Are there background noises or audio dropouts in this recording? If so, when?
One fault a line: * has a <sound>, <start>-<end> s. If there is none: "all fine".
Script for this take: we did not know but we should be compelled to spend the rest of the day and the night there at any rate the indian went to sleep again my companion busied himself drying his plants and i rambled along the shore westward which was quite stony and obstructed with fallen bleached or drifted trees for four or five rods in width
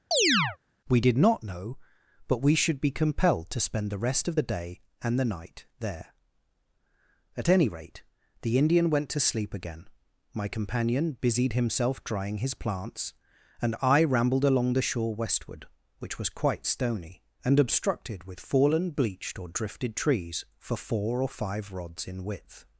* has a chirp, 0.1-0.6 s